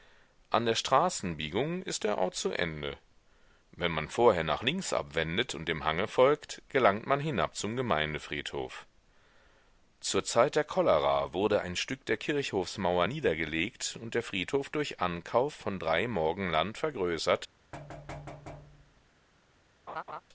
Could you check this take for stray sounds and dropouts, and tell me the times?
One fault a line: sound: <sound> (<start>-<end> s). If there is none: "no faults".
sound: thud (17.7-19.1 s)
sound: laugh (19.9-20.2 s)